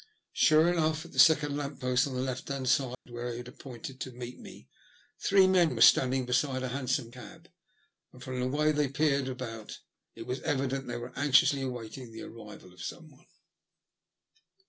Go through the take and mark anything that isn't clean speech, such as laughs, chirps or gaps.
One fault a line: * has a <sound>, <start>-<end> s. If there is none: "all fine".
* has a dropout, 2.9-3.1 s